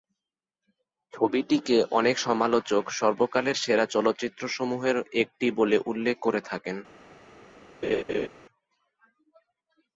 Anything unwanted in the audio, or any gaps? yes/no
yes